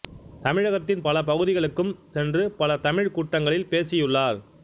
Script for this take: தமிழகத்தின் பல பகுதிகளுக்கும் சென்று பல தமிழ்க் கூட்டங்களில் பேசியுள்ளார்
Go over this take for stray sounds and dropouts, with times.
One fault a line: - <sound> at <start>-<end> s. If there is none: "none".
none